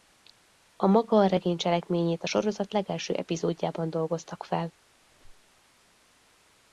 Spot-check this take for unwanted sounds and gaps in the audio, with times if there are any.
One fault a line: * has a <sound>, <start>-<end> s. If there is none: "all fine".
* has a squeak, 5.0-5.6 s